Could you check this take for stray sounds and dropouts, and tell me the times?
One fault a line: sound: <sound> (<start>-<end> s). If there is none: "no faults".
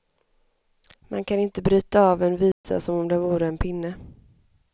sound: dropout (2.5-2.6 s)